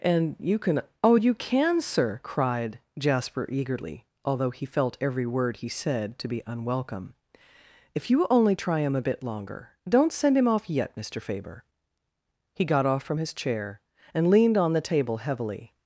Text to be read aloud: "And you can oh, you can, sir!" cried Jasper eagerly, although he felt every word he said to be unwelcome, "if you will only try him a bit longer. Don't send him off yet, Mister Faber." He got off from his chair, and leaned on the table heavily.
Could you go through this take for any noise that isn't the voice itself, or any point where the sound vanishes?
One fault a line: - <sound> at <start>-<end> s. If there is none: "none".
none